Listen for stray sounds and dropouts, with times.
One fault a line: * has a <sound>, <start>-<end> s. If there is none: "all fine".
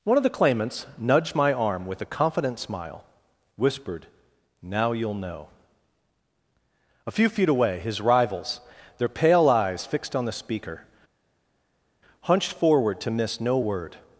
all fine